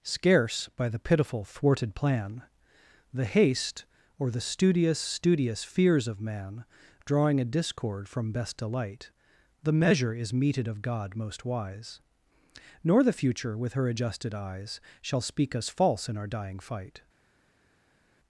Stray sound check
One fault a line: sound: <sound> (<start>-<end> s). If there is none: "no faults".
no faults